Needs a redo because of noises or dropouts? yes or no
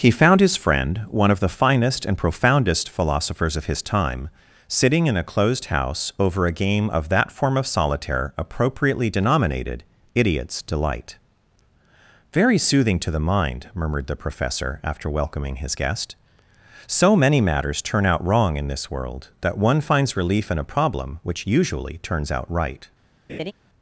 yes